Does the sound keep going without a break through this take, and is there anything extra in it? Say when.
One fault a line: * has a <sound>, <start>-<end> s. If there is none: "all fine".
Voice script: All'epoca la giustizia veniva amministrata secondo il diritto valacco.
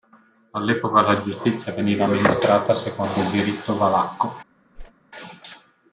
* has a whoosh, 4.7-4.9 s